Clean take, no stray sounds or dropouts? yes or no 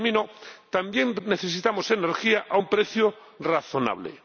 yes